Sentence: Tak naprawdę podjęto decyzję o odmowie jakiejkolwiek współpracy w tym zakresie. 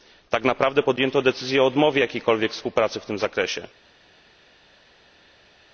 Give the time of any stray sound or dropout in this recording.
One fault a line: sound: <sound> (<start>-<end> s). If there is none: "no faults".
no faults